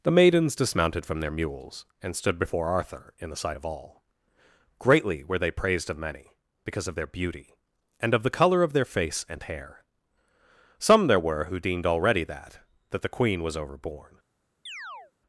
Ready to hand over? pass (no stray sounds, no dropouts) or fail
fail